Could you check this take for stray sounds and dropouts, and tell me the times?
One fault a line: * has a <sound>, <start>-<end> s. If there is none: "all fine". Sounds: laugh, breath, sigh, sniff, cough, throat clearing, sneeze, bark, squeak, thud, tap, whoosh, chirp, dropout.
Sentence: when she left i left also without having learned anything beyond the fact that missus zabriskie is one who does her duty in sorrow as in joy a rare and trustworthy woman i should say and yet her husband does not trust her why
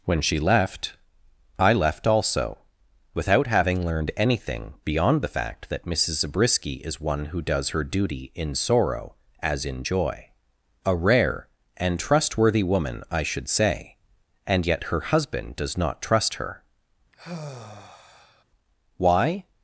* has a sigh, 17.1-18.4 s